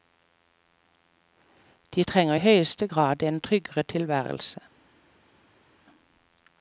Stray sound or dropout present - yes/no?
no